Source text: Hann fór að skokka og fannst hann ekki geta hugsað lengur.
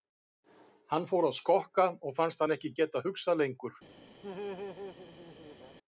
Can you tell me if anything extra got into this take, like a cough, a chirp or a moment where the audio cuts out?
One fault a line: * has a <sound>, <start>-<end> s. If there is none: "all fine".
* has a laugh, 4.2-5.8 s